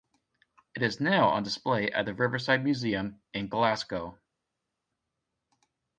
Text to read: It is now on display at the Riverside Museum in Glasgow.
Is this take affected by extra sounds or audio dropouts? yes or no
no